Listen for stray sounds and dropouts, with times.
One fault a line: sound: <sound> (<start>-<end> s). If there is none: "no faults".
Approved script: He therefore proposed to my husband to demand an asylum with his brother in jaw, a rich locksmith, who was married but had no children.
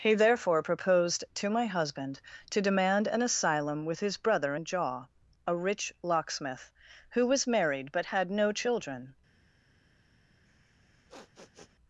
sound: sniff (10.5-11.8 s)